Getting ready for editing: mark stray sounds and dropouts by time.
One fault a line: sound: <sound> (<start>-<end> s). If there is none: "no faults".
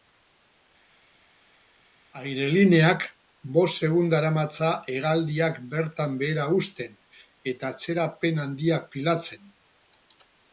no faults